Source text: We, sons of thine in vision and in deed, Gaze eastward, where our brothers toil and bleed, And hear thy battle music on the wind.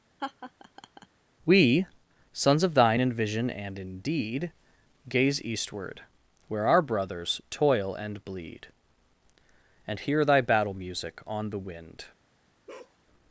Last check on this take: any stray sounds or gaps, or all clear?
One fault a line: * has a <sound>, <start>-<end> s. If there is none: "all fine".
* has a laugh, 0.2-1.1 s
* has a bark, 12.7-13.0 s